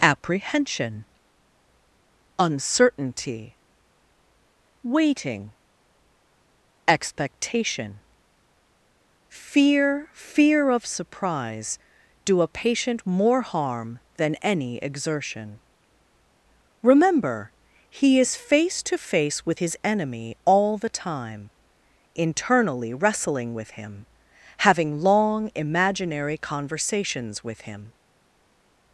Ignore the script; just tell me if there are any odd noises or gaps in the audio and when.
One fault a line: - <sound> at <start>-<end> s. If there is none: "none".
none